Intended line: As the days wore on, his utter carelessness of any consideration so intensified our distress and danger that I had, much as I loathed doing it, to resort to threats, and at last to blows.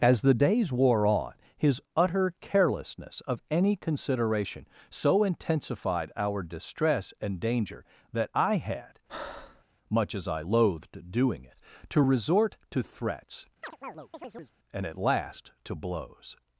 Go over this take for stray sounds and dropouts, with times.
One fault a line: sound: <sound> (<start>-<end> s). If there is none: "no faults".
sound: breath (9.1-9.6 s)
sound: chirp (13.6-14.5 s)